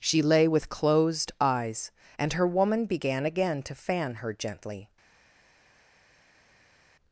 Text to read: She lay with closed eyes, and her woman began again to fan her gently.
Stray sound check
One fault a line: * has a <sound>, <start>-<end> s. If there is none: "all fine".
all fine